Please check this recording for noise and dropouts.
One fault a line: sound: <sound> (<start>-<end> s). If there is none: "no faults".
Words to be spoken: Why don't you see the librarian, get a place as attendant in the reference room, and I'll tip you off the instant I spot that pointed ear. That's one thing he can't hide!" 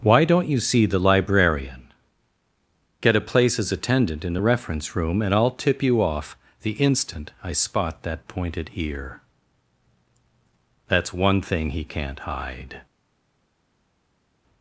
no faults